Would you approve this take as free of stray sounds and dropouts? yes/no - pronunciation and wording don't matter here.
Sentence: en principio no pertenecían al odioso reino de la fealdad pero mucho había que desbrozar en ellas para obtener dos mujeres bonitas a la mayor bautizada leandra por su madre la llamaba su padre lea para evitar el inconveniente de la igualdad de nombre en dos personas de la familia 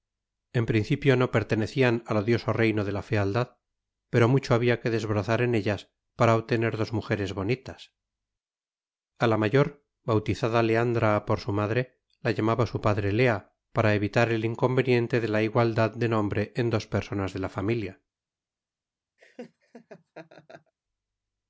no